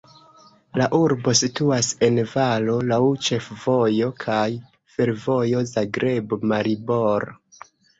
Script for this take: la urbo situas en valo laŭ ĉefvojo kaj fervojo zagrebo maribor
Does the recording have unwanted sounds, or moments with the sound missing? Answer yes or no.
no